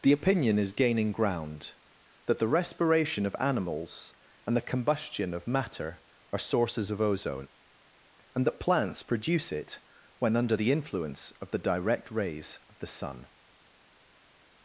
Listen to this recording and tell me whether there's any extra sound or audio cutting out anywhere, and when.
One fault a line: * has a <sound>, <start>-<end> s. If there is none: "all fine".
all fine